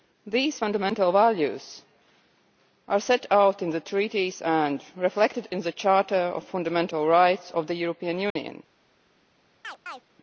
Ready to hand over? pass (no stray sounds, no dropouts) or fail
fail